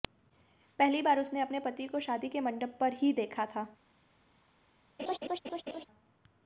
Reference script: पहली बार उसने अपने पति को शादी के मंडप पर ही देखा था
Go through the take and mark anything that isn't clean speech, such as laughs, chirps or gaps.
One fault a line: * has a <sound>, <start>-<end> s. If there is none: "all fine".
* has a laugh, 5.0-5.9 s